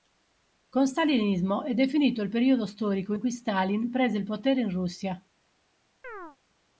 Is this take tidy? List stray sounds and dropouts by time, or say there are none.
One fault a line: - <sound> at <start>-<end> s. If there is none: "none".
- chirp at 6.0-6.4 s